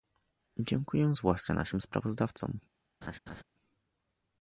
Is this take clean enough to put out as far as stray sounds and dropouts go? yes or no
no